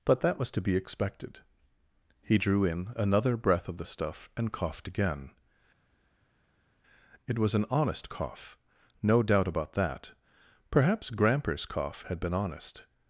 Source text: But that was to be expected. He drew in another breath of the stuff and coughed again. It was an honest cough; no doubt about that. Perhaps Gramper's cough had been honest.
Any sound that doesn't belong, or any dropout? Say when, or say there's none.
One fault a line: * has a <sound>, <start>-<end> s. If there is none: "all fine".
all fine